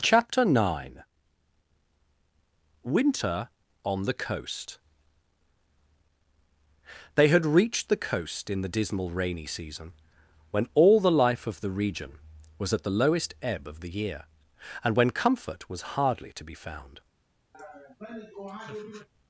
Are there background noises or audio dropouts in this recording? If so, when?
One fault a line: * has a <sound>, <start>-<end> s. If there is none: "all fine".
* has a laugh, 17.5-19.1 s